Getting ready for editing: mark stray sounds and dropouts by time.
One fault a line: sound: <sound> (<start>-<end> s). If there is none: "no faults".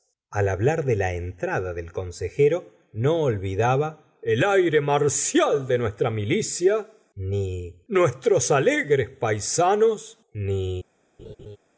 sound: laugh (11.2-11.6 s)